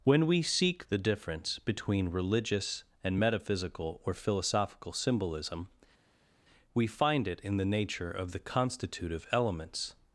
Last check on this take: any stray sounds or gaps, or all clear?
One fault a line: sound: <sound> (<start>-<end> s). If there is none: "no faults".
no faults